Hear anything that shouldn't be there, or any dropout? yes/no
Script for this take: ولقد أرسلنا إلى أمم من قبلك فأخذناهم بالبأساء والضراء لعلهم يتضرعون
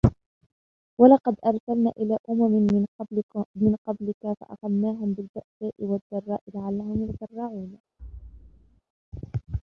yes